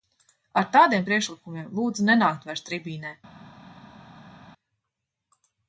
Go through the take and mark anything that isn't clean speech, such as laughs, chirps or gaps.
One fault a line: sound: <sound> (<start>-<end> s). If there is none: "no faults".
no faults